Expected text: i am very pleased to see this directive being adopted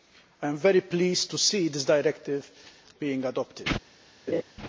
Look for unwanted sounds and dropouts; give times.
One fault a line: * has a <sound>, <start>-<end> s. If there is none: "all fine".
* has a laugh, 4.3-4.4 s